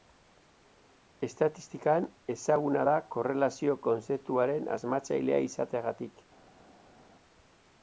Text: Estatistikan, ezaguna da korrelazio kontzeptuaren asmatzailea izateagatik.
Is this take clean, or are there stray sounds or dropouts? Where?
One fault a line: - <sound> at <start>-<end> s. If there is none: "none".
none